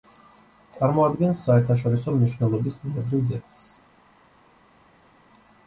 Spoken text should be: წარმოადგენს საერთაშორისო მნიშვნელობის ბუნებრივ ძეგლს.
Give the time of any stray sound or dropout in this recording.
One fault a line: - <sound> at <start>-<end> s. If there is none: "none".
none